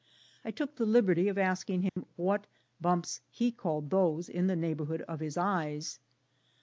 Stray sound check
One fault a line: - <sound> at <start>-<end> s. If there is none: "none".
- dropout at 1.9-2.0 s